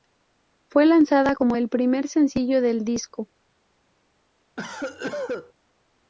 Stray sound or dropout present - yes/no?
yes